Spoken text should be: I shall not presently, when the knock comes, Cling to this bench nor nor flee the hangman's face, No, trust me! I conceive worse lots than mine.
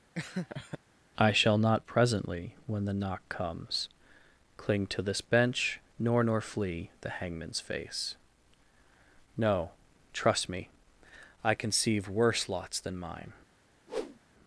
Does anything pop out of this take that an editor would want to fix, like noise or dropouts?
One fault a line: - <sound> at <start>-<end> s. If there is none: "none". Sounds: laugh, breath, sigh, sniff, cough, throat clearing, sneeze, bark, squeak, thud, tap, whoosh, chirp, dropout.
- laugh at 0.2-0.8 s
- whoosh at 13.9-14.2 s